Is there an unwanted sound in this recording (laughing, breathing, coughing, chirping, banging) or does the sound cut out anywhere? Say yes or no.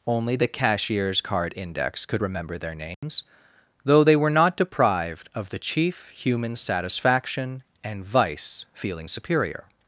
yes